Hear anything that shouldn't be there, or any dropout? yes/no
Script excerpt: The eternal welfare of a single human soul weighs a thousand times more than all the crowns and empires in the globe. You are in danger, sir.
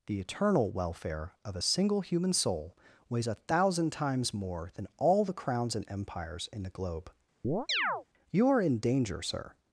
yes